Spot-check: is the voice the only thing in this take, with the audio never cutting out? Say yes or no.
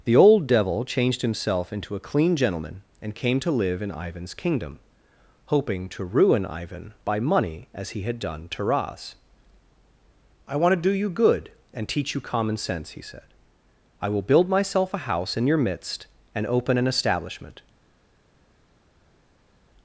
yes